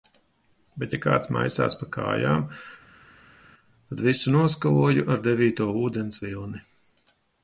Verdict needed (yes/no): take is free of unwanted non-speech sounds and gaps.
yes